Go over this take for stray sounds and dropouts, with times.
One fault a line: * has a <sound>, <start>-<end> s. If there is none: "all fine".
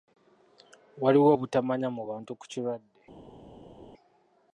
all fine